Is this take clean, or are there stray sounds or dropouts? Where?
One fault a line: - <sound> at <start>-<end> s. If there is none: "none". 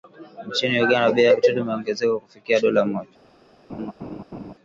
- laugh at 3.7-4.5 s